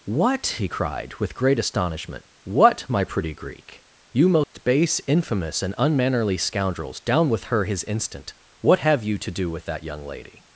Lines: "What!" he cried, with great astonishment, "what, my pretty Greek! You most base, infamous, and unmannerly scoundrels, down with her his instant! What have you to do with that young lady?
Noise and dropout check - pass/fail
fail